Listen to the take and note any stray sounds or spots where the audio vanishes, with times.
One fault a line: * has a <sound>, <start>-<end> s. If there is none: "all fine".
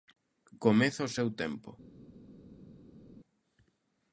all fine